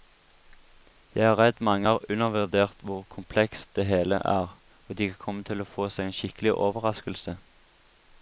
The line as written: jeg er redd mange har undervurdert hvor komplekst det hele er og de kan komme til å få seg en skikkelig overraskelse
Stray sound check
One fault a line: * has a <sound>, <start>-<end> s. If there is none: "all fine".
all fine